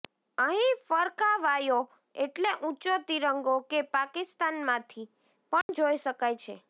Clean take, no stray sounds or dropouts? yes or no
no